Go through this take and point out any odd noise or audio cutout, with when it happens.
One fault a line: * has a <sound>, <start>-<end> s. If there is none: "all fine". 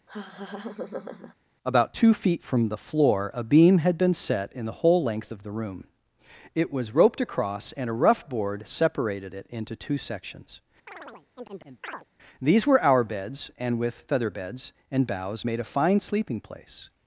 * has a laugh, 0.1-1.3 s
* has a chirp, 10.9-12.1 s